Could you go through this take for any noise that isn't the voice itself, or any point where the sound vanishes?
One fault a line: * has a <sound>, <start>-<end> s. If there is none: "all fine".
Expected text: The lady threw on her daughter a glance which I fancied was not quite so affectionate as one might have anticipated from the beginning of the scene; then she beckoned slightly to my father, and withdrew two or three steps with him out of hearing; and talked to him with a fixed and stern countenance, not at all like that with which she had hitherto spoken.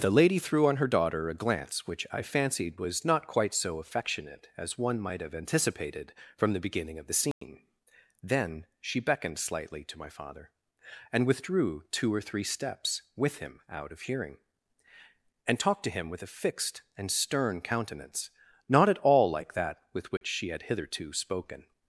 * has a dropout, 7.3-7.4 s
* has a dropout, 20.2-20.2 s